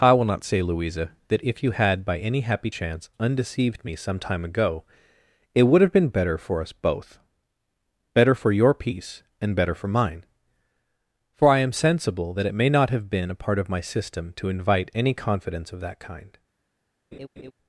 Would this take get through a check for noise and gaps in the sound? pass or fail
fail